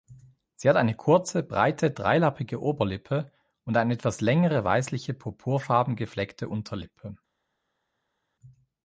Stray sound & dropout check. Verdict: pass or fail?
pass